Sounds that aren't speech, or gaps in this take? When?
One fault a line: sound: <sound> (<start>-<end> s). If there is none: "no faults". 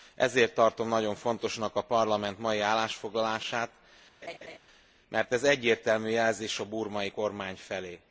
sound: laugh (4.2-4.6 s)